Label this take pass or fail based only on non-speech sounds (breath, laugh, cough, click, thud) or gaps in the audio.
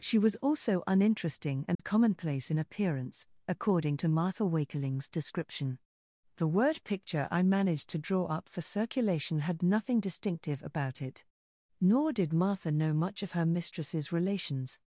fail